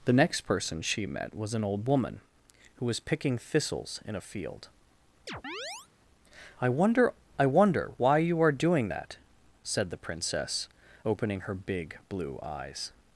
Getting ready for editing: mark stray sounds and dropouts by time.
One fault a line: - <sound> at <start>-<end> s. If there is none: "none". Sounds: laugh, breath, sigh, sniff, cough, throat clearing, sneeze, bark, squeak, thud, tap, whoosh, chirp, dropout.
- chirp at 5.3-5.9 s